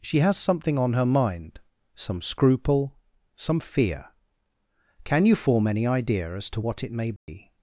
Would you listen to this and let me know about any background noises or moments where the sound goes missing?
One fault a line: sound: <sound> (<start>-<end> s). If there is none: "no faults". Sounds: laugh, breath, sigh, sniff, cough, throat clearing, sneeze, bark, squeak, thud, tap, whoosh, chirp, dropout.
sound: dropout (7.2-7.3 s)